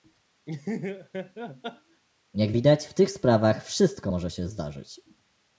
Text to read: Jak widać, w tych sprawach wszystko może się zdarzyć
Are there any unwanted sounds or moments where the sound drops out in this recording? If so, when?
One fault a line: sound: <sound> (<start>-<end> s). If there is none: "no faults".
sound: laugh (0.5-2.0 s)